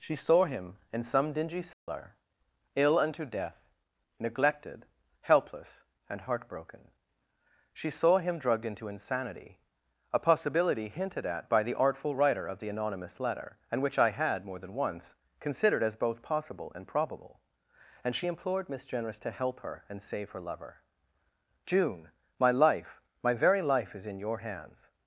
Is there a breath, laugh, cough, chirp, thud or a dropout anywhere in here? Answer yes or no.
yes